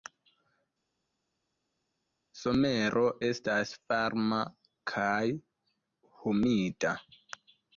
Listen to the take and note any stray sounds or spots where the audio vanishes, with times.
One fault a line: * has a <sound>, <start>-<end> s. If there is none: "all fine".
all fine